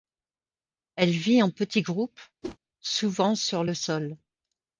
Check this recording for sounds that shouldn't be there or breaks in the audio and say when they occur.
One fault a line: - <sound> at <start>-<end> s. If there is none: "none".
- whoosh at 2.4-2.6 s